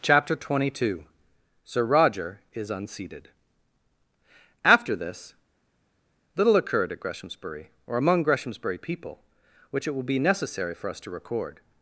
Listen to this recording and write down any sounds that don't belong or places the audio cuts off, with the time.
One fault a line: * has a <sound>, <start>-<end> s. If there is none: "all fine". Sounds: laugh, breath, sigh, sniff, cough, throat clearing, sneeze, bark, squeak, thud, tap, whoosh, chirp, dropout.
all fine